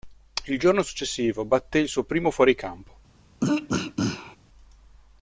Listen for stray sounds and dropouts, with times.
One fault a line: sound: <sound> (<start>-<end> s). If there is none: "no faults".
sound: throat clearing (3.4-4.4 s)